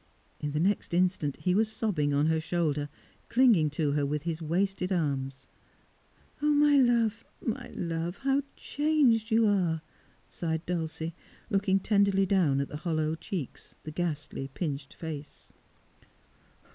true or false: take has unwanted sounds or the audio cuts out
false